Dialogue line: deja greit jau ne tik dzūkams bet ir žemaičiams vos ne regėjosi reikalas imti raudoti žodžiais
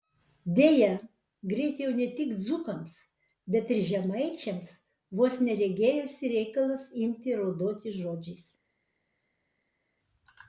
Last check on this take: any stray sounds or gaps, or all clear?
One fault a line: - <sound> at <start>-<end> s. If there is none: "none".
none